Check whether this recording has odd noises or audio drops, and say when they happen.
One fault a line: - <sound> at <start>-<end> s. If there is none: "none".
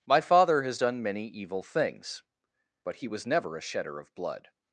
none